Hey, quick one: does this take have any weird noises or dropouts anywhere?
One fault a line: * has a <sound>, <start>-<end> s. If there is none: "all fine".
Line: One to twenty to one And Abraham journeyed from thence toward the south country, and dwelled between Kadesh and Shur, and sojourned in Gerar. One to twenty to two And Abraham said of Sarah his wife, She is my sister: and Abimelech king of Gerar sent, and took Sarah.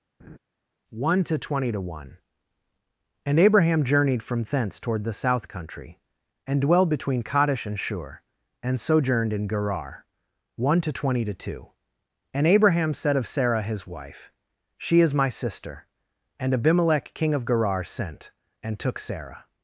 * has a laugh, 0.2-0.4 s